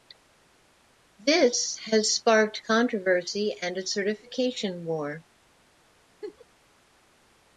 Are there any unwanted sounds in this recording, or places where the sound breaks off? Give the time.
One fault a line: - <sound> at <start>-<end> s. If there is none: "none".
- laugh at 6.2-6.5 s